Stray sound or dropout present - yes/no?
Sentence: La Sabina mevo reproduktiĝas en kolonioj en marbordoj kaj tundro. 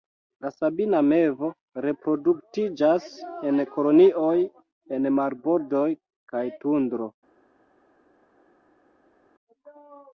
no